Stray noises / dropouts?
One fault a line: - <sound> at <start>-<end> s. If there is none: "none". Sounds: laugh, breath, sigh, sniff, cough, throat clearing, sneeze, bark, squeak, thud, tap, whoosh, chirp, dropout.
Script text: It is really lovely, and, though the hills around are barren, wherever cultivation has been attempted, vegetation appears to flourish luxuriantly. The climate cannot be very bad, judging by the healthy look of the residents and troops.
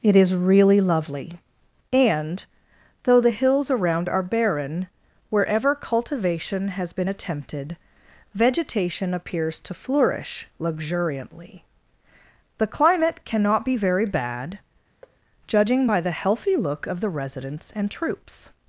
- thud at 15.0-15.2 s